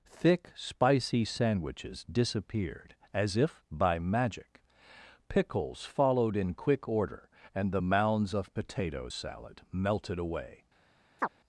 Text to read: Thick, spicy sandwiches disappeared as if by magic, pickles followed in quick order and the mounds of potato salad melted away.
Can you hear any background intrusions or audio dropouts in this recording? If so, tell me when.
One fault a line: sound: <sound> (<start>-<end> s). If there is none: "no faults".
sound: chirp (11.2-11.3 s)